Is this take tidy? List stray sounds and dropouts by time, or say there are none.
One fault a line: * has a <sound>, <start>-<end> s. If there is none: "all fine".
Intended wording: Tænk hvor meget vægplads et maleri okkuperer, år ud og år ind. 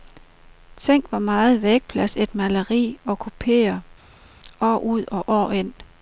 all fine